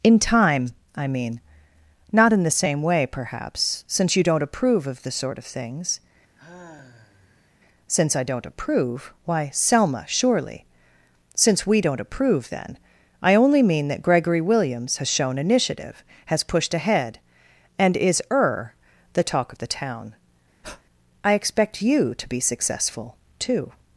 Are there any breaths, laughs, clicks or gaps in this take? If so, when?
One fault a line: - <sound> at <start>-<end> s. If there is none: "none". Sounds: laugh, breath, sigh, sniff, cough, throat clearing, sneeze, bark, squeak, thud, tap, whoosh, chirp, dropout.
- sigh at 6.3-7.5 s
- breath at 20.6-20.8 s